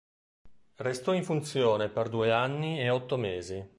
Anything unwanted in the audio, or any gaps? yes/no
no